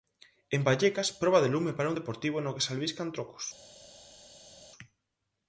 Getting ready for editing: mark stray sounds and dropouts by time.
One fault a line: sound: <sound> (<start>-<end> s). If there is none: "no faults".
no faults